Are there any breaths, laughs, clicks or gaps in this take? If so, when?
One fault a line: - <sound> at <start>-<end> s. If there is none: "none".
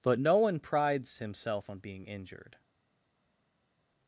none